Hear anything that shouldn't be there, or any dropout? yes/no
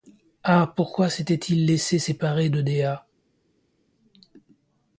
no